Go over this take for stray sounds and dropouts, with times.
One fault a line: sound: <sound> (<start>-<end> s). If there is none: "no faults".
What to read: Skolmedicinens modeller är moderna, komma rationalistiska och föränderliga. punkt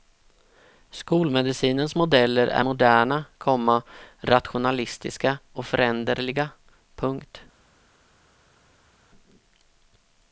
no faults